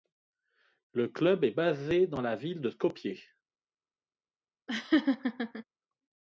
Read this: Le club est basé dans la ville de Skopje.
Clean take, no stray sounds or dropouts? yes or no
no